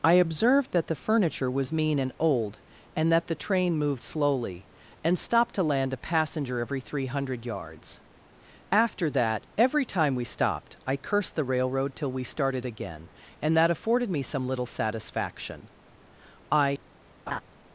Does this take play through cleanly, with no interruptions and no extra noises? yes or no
no